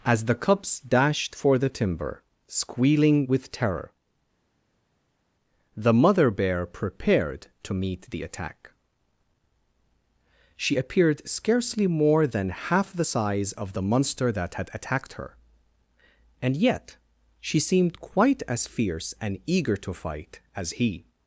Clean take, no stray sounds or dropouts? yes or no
yes